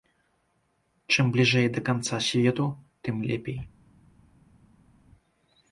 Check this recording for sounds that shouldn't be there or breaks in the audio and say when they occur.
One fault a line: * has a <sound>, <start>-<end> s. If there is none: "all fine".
all fine